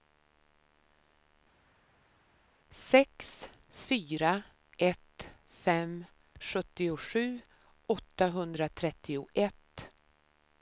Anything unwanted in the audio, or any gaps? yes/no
no